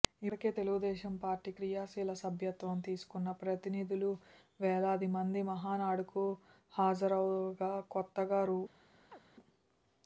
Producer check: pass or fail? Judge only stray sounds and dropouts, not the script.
fail